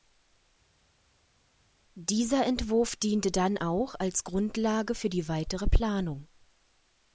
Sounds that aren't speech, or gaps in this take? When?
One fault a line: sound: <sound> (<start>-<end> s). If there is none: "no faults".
no faults